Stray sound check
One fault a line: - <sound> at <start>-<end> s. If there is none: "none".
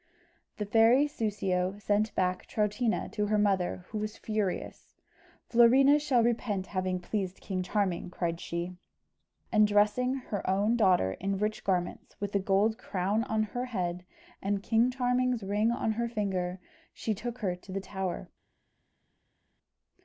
none